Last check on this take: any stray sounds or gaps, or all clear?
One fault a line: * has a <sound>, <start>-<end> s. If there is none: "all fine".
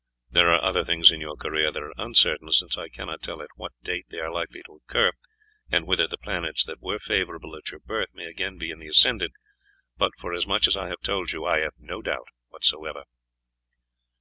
all fine